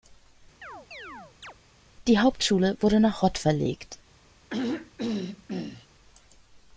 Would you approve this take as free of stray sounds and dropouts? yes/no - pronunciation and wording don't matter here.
no